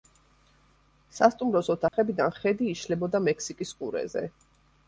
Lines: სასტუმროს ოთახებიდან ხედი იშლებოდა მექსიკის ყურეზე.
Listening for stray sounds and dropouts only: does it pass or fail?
fail